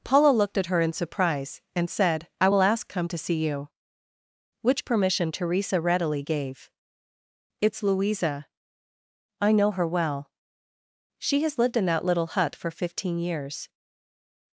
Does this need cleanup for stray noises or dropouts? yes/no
no